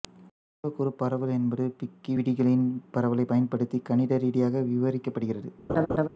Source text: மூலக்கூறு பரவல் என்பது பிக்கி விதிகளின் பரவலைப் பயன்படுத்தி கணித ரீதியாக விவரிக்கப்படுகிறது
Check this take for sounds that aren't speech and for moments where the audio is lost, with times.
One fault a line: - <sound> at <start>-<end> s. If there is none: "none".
- laugh at 5.7-6.1 s